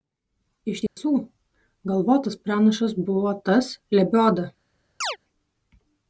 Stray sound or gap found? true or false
true